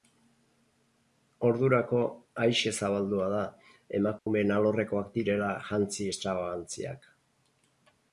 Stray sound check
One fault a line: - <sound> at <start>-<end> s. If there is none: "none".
- dropout at 4.2-4.3 s